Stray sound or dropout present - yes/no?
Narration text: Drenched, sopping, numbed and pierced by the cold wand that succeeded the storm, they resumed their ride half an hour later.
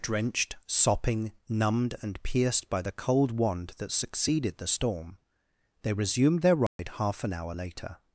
yes